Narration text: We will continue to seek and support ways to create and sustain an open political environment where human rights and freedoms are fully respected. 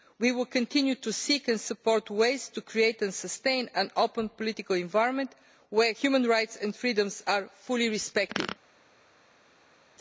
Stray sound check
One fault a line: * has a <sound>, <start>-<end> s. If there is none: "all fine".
all fine